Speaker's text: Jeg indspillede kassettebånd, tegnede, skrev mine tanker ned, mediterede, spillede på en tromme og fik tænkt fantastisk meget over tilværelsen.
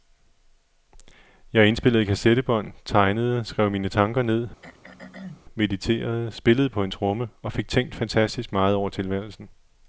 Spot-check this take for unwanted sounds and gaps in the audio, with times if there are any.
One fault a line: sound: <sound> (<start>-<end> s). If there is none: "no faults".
sound: throat clearing (4.6-5.4 s)